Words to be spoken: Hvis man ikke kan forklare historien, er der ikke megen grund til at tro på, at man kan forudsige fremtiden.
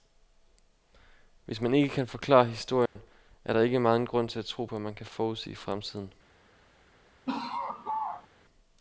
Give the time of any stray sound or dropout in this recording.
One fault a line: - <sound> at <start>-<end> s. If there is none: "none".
- dropout at 2.9-3.0 s
- laugh at 7.3-8.3 s